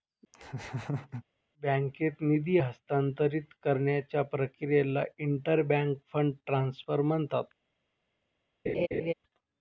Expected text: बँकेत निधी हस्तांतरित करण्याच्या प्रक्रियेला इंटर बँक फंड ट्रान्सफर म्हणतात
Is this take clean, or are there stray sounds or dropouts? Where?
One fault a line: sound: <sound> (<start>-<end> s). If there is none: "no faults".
sound: laugh (0.3-1.2 s)
sound: laugh (8.7-9.1 s)